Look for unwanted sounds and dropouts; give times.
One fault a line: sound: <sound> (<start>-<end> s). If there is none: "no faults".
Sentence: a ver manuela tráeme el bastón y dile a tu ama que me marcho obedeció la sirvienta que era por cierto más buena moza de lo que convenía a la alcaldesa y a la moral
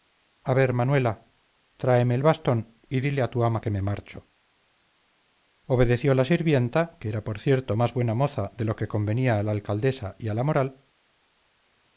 no faults